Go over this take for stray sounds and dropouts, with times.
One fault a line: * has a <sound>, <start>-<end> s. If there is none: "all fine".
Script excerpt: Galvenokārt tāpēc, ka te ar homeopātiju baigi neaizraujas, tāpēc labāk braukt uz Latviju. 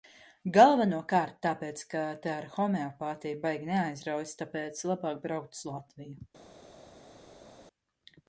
all fine